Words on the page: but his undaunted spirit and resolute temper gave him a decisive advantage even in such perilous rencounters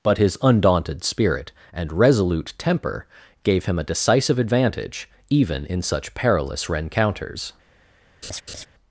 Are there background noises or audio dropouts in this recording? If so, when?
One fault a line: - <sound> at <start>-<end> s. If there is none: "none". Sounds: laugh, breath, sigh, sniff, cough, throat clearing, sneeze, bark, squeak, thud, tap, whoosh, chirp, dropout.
- laugh at 8.2-8.7 s